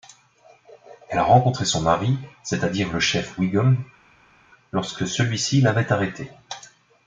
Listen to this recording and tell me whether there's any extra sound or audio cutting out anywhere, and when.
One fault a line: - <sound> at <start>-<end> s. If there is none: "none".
none